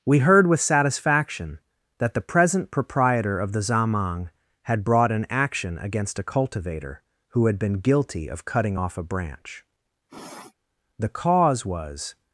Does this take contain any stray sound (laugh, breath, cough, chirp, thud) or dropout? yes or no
yes